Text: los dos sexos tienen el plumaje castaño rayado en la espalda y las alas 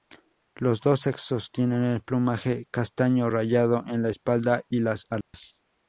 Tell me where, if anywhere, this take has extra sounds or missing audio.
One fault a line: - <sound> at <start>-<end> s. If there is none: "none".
- dropout at 5.2-5.3 s